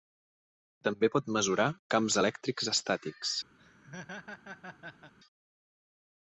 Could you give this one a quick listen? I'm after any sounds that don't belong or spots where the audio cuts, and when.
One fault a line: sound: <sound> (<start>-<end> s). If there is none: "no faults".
sound: laugh (3.6-5.1 s)